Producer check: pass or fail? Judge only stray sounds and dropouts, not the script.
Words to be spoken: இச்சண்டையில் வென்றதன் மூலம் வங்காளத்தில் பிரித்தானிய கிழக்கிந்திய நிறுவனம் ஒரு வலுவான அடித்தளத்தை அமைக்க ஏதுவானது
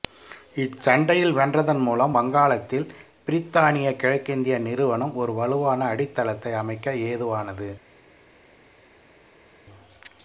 pass